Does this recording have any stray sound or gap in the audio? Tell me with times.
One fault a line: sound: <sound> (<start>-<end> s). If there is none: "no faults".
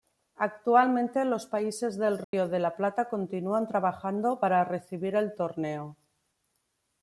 sound: dropout (2.2-2.3 s)